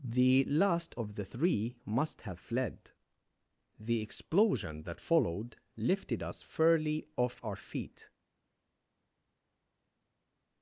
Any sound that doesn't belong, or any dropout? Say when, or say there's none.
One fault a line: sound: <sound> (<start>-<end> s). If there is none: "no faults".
no faults